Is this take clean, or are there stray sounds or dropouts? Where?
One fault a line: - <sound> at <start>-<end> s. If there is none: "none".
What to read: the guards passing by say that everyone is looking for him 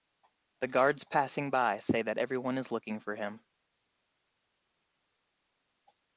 none